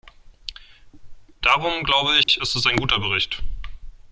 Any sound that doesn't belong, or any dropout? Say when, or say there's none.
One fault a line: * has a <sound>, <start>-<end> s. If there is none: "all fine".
* has a dropout, 2.2-2.3 s